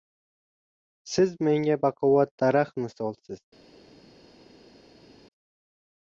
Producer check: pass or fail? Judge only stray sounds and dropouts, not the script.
pass